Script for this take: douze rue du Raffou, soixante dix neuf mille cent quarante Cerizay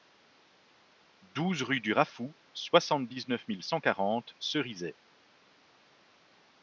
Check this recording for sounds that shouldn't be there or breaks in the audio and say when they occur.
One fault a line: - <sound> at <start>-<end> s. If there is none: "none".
none